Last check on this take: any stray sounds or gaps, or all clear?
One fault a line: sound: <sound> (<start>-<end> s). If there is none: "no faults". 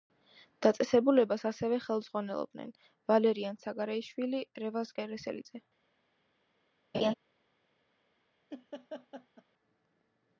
sound: laugh (6.9-7.1 s)
sound: laugh (8.5-9.4 s)